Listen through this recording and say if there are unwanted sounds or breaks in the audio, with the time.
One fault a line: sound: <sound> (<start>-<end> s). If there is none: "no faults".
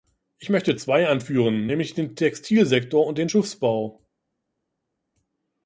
no faults